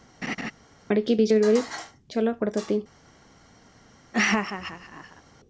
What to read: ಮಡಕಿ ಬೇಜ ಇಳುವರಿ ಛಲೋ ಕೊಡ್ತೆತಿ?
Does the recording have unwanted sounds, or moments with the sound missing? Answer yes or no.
yes